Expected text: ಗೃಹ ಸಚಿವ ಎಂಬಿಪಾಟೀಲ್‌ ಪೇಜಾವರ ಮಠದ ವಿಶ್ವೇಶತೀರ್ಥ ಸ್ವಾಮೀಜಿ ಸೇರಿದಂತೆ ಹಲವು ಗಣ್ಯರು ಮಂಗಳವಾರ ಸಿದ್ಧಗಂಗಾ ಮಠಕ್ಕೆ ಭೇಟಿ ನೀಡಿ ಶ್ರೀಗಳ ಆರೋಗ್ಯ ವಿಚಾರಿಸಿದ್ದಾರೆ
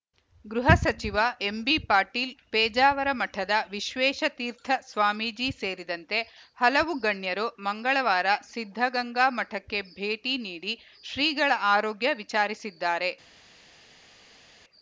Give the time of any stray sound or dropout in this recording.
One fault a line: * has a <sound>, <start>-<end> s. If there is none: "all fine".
all fine